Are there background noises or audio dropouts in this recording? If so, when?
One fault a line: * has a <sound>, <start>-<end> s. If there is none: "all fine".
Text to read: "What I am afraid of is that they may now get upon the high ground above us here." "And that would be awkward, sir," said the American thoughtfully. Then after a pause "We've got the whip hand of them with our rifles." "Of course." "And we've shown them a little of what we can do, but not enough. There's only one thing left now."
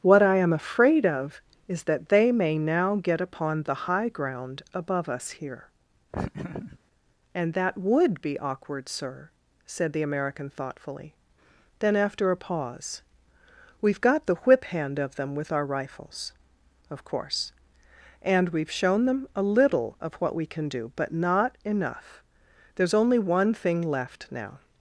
* has a laugh, 6.1-6.8 s